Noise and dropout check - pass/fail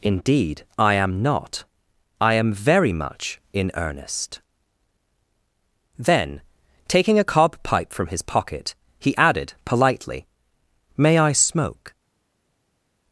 pass